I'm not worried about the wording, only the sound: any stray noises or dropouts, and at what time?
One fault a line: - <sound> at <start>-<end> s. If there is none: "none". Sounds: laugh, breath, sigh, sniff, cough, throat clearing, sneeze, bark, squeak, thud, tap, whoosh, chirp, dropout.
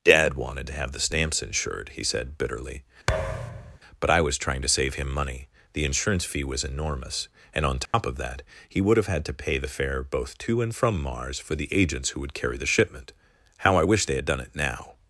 - thud at 3.1-3.8 s
- dropout at 7.9-7.9 s